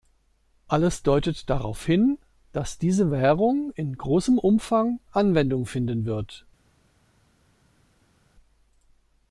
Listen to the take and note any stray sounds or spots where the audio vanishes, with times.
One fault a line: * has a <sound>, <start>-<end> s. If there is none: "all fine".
all fine